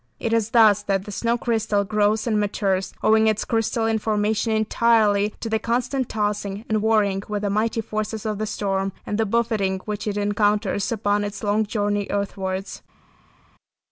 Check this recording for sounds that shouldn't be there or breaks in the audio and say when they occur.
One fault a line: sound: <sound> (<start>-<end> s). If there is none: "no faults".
no faults